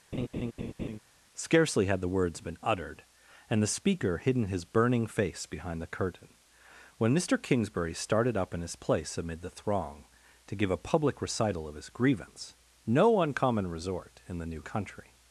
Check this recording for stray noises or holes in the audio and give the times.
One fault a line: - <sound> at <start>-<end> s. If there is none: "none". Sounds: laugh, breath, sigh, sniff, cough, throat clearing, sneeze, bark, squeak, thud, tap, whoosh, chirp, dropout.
- laugh at 0.1-1.0 s